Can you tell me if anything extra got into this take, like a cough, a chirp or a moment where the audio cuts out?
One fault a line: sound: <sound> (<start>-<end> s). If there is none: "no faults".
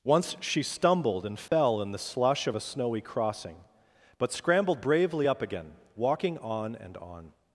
sound: dropout (1.5-1.5 s)